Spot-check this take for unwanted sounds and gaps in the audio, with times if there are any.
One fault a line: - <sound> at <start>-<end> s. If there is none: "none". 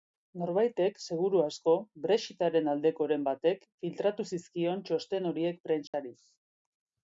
- dropout at 5.9-5.9 s